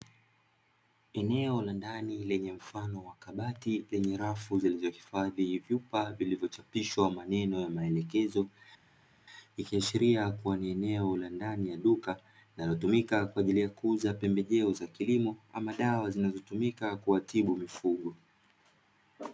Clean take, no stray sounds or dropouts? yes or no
yes